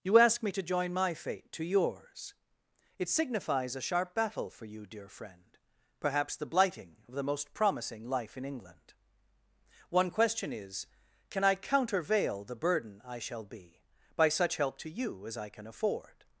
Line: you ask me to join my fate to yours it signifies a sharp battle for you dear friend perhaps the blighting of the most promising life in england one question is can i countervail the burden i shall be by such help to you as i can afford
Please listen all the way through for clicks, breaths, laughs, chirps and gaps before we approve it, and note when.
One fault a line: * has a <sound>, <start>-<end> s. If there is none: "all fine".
all fine